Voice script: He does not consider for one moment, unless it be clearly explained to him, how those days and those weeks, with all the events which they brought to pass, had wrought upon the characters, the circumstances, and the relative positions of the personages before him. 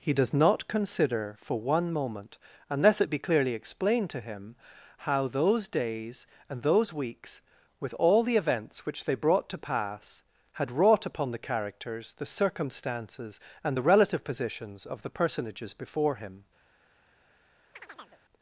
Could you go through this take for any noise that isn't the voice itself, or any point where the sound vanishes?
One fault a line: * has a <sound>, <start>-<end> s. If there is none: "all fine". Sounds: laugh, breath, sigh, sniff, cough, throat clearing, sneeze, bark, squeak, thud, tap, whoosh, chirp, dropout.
* has a chirp, 17.7-18.2 s